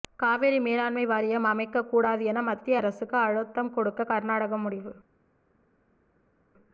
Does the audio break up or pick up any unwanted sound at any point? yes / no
no